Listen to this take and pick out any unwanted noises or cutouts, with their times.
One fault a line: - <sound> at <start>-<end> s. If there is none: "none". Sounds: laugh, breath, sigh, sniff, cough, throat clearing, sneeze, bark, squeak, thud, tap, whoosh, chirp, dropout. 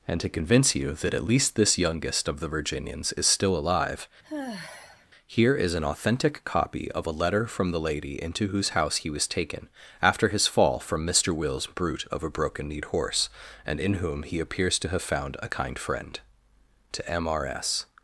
- sigh at 4.2-5.1 s